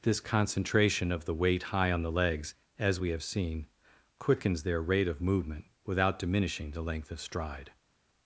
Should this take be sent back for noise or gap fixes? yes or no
no